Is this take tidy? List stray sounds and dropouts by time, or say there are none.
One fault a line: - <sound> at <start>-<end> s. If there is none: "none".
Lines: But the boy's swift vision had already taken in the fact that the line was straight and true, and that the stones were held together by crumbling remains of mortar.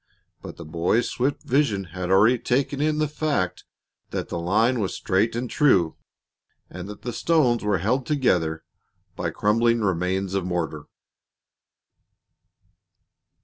none